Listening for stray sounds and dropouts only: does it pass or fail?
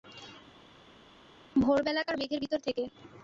pass